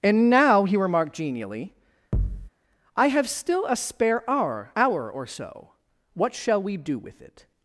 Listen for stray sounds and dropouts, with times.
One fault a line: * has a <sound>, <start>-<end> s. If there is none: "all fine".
* has a thud, 2.1-2.5 s